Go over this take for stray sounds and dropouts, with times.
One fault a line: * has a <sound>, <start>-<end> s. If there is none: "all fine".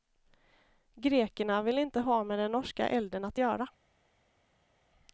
all fine